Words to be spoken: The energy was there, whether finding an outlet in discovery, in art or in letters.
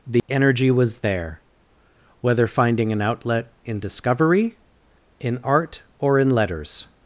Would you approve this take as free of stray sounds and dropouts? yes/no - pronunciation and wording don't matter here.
no